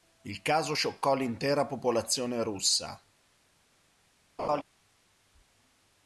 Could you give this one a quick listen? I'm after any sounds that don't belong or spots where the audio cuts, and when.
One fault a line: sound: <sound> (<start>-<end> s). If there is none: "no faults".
sound: laugh (4.4-4.6 s)